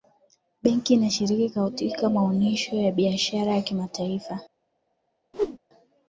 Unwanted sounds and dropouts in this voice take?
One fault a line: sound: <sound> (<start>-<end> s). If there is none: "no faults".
sound: whoosh (5.3-5.6 s)